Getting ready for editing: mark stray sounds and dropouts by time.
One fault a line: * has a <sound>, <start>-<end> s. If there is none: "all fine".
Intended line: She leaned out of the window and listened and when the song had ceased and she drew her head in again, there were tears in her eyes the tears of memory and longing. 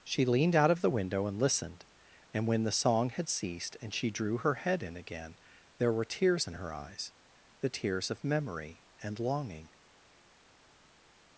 all fine